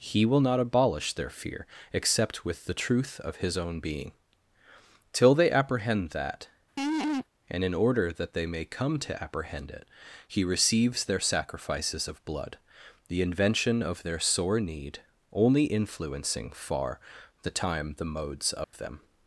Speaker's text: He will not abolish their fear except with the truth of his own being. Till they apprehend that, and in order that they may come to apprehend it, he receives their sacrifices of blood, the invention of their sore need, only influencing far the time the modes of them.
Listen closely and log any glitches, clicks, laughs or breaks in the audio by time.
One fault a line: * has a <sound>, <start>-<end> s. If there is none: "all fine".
* has a laugh, 6.8-7.3 s
* has a dropout, 18.6-18.7 s